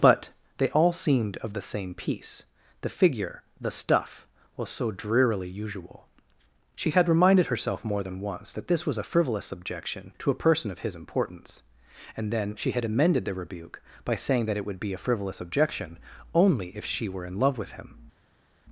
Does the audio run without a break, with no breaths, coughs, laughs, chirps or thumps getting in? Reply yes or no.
yes